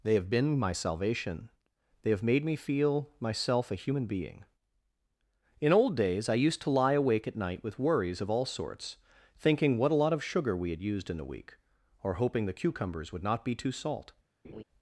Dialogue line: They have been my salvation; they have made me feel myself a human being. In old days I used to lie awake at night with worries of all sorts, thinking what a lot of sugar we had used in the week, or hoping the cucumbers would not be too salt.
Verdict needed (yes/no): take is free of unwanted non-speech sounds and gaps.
no